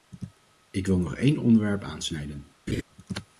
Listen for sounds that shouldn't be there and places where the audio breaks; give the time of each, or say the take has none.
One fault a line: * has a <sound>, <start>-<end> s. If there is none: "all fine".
* has a laugh, 2.7-2.8 s